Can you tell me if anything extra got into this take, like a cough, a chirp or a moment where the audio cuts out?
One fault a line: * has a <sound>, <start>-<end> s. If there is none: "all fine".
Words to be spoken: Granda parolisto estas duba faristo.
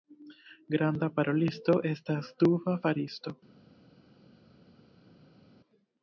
all fine